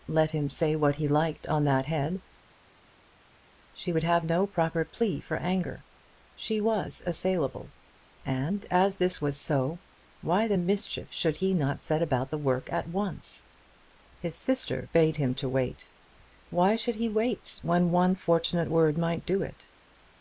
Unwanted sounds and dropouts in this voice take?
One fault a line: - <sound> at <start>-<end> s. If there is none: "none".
none